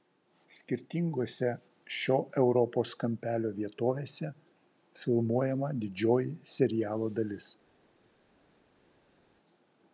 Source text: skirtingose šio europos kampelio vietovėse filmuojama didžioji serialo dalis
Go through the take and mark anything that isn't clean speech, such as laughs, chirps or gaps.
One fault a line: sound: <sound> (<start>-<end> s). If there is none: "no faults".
no faults